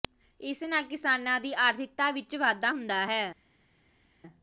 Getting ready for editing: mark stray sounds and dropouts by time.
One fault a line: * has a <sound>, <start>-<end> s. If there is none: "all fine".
all fine